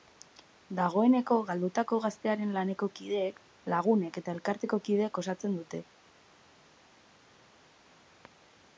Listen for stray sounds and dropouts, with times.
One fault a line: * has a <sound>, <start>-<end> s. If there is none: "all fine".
all fine